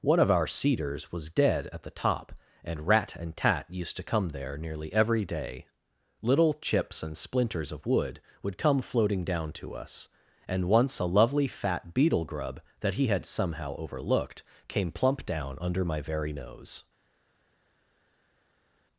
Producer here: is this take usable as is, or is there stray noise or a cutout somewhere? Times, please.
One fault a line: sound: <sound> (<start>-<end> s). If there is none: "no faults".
no faults